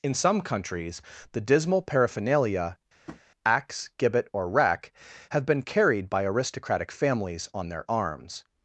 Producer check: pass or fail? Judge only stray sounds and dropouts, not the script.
fail